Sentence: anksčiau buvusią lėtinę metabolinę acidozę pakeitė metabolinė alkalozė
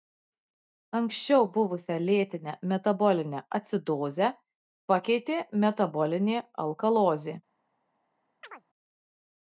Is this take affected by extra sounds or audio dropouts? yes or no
yes